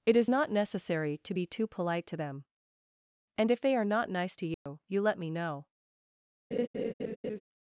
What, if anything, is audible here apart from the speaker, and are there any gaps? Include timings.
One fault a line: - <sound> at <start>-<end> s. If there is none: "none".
- dropout at 4.5-4.7 s
- laugh at 6.5-7.4 s